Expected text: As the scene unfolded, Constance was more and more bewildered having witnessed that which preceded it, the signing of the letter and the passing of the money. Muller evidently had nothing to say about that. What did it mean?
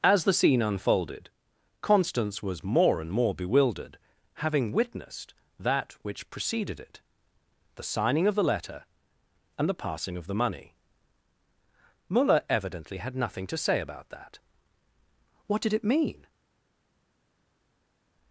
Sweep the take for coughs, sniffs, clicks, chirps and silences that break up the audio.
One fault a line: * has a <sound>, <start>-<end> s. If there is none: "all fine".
all fine